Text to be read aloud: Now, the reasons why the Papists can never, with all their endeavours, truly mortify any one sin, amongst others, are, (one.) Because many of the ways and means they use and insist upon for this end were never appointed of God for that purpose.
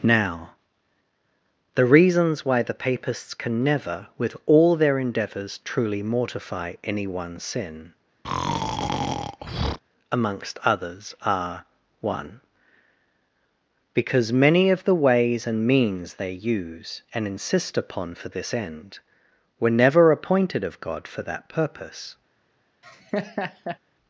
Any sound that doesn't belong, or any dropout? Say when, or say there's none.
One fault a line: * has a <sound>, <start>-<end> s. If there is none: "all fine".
* has a breath, 8.2-9.8 s
* has a laugh, 22.8-23.8 s